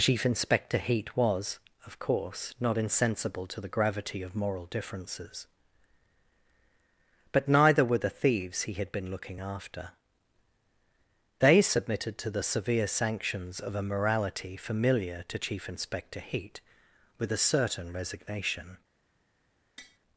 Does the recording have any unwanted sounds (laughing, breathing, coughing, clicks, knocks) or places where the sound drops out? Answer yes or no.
yes